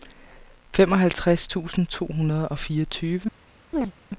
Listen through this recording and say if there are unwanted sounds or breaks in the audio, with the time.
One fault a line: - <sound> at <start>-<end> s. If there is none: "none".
- chirp at 3.7-3.9 s